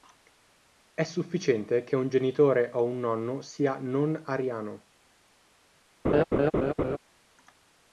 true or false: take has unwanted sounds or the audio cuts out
true